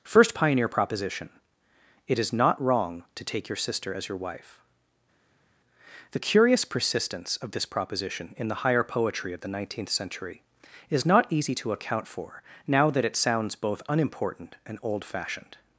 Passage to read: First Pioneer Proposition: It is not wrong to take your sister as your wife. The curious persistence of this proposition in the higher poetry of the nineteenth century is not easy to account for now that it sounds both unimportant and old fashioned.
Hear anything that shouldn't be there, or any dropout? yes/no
no